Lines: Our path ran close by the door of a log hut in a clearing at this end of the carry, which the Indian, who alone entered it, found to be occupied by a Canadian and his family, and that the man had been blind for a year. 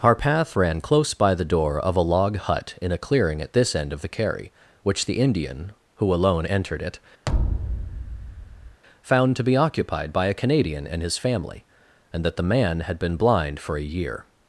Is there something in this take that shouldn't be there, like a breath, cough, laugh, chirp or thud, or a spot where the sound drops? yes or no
yes